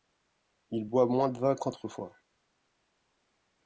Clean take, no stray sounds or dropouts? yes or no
yes